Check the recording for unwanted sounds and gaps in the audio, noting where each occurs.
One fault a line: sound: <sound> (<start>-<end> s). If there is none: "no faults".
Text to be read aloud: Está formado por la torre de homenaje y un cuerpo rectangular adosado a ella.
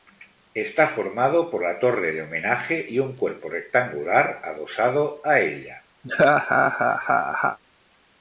sound: laugh (6.0-7.6 s)